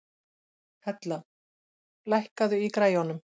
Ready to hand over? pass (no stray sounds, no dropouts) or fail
pass